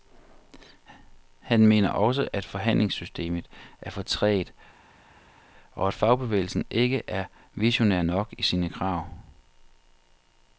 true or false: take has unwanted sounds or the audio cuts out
false